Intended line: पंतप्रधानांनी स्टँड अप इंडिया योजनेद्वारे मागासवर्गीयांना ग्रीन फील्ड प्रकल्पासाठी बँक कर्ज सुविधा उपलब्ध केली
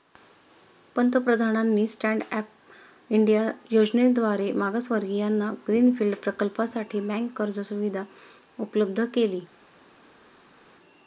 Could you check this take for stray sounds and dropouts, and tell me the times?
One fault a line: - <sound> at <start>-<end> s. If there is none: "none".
none